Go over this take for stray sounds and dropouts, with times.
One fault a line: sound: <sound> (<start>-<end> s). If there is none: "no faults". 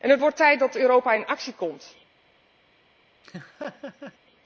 sound: laugh (3.2-4.2 s)